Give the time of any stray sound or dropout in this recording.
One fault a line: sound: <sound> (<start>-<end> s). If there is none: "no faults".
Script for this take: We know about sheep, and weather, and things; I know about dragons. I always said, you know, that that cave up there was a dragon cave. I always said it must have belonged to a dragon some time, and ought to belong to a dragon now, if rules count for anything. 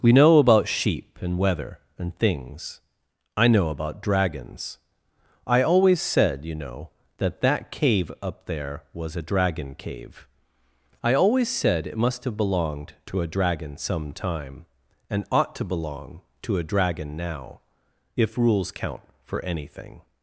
no faults